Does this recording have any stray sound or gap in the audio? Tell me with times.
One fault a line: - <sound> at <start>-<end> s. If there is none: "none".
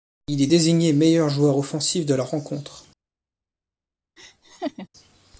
- laugh at 4.2-4.9 s